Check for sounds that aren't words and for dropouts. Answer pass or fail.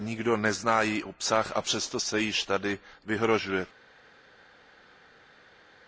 pass